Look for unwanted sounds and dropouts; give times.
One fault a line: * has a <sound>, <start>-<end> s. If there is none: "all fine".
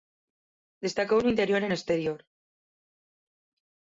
all fine